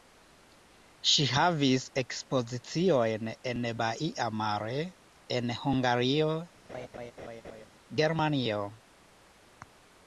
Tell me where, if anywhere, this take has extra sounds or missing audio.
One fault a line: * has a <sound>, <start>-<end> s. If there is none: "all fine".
* has a laugh, 6.7-7.7 s